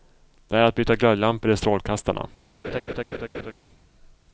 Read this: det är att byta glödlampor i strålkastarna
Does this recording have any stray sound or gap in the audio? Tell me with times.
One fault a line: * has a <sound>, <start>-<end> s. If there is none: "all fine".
* has a laugh, 2.6-3.5 s